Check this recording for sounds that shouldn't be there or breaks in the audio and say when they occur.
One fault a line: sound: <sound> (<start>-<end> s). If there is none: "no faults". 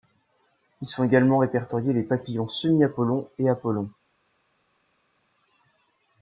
no faults